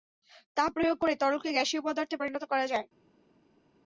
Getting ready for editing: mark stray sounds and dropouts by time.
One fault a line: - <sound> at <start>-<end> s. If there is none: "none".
none